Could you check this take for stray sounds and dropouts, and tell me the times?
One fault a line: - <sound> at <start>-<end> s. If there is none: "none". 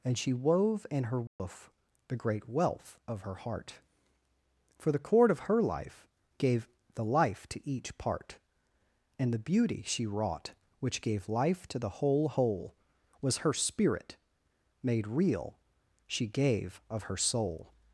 - dropout at 1.3-1.4 s